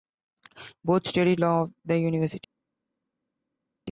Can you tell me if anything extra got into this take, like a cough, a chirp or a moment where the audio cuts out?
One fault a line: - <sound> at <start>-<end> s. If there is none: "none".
none